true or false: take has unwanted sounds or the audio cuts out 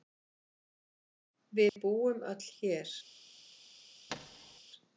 true